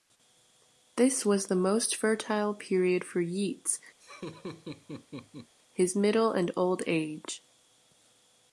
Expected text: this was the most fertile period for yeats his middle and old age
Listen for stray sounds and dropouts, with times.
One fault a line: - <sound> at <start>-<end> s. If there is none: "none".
- laugh at 4.0-5.5 s